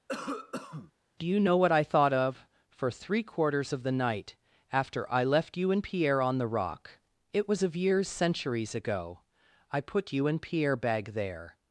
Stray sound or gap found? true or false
true